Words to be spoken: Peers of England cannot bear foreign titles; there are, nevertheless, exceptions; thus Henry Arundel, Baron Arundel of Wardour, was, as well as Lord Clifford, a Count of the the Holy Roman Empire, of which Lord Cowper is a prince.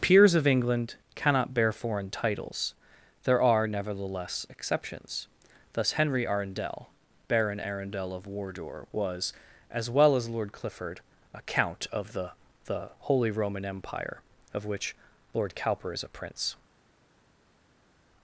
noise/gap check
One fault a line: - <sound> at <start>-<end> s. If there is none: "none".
none